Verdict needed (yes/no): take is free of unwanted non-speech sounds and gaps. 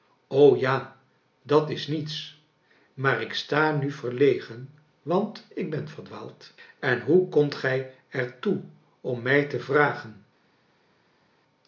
yes